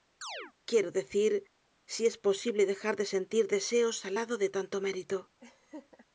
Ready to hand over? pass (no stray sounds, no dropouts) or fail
fail